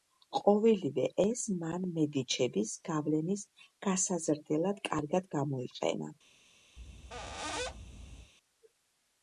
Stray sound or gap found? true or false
true